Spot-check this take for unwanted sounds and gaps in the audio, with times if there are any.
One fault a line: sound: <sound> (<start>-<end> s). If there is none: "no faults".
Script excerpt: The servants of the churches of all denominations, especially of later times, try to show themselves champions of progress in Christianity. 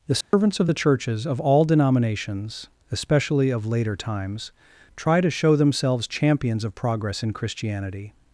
sound: dropout (0.2-0.3 s)